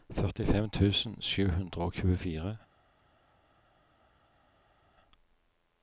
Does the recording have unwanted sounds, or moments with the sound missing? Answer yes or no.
no